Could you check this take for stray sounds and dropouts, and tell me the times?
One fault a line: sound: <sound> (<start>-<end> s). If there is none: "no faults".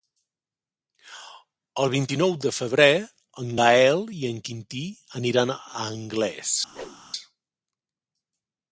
sound: whoosh (6.7-7.0 s)